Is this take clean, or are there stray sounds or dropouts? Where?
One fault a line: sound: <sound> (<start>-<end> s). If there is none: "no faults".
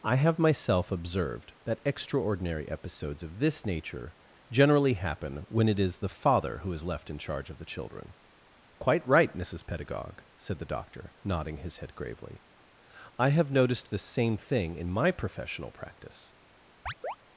sound: chirp (16.9-17.2 s)